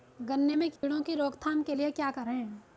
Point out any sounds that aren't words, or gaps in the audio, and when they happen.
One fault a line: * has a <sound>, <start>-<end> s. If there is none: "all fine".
* has a dropout, 0.8-0.8 s